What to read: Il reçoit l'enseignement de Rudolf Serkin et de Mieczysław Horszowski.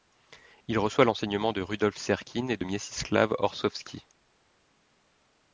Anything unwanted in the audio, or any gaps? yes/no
no